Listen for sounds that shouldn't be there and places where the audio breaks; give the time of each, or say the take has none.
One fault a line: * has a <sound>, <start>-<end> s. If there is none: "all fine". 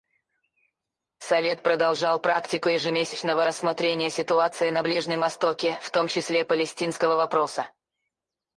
all fine